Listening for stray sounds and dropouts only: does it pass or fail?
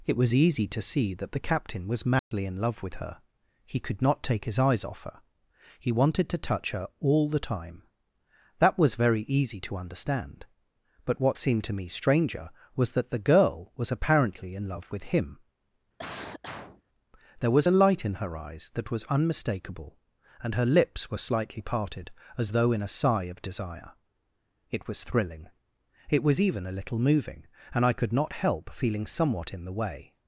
fail